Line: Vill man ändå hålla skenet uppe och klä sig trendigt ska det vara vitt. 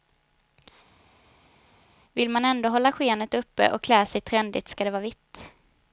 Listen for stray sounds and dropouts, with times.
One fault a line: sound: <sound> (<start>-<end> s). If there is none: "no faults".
no faults